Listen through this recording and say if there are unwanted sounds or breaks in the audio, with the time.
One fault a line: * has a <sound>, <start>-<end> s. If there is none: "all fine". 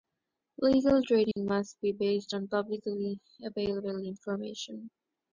* has a dropout, 1.3-1.4 s